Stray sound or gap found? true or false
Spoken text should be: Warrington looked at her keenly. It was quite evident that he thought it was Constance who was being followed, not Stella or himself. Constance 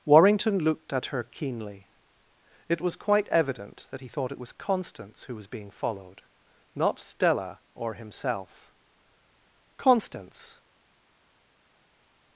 false